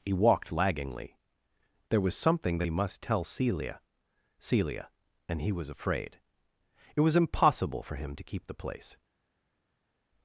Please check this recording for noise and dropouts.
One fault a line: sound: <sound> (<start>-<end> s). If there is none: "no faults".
no faults